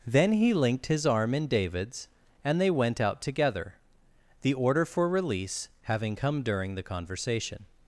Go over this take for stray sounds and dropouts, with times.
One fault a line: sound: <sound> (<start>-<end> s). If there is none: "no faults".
no faults